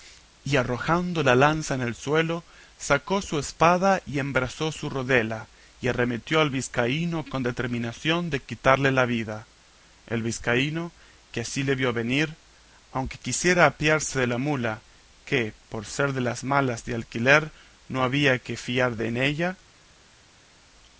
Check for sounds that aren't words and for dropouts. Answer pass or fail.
pass